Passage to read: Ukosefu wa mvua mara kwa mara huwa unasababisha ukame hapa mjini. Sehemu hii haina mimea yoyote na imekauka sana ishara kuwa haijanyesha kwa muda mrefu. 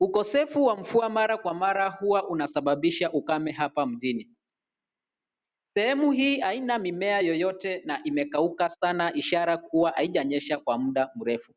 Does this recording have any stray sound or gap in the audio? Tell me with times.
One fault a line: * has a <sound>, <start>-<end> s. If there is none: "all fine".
all fine